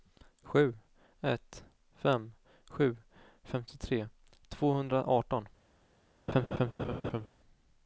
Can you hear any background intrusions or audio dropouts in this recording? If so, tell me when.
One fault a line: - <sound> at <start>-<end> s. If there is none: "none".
- laugh at 6.3-7.3 s